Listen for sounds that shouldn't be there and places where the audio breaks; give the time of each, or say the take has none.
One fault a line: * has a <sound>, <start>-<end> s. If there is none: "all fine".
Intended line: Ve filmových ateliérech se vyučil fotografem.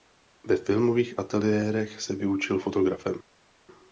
all fine